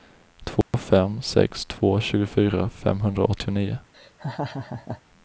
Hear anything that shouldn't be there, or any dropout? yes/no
yes